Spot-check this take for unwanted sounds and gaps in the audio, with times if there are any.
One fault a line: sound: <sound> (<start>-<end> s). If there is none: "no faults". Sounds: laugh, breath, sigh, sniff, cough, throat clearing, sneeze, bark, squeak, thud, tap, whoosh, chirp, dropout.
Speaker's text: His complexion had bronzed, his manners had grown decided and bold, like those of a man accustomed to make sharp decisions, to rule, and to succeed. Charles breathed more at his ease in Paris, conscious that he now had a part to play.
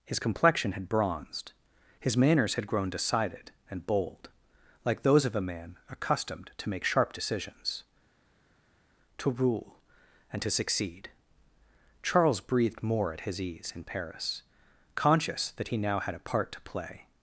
no faults